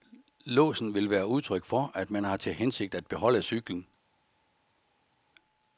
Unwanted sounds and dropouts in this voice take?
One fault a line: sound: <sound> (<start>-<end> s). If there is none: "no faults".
no faults